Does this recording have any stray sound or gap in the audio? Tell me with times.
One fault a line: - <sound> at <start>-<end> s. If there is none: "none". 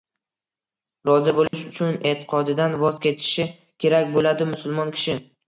- dropout at 1.5-1.5 s